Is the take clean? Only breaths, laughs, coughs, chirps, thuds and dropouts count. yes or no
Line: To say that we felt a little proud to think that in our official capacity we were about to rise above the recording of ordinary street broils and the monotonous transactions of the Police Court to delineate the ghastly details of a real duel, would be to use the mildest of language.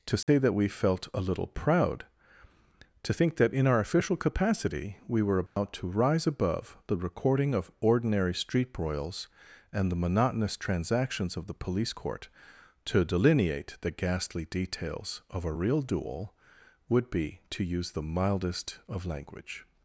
no